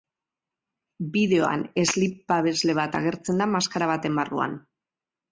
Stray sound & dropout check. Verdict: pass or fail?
pass